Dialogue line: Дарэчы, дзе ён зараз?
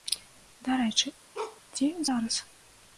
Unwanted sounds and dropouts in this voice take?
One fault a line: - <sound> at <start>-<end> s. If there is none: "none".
- bark at 1.3-1.6 s